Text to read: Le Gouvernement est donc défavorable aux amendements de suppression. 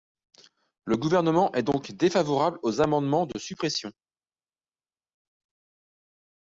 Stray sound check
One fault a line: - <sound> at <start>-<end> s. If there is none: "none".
none